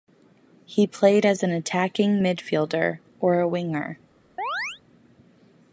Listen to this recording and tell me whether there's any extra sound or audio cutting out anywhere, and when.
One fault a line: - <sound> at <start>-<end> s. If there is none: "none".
- chirp at 4.4-4.8 s